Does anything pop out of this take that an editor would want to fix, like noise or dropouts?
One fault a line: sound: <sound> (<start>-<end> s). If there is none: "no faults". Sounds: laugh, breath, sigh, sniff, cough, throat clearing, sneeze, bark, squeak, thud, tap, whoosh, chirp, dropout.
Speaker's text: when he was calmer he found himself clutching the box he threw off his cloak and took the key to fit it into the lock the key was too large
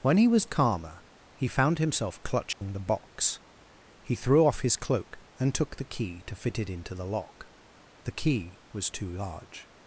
sound: dropout (2.5-2.6 s)